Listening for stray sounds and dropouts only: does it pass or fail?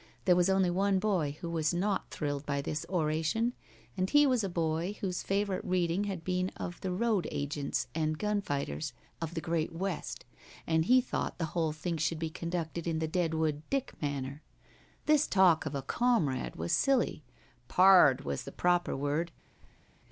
fail